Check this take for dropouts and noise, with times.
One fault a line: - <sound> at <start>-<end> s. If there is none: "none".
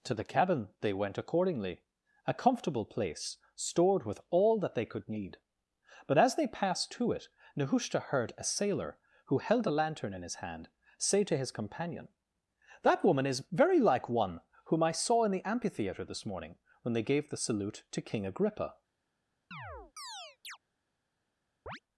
- chirp at 19.5-20.6 s
- chirp at 21.7-21.8 s